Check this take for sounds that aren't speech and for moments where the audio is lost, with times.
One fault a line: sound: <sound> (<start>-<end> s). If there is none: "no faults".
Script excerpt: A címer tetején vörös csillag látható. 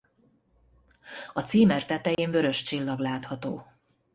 sound: dropout (2.1-2.2 s)